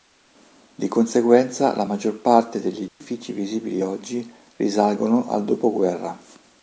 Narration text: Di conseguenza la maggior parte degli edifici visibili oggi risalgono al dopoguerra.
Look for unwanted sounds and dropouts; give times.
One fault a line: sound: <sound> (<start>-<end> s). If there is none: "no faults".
sound: dropout (2.9-3.0 s)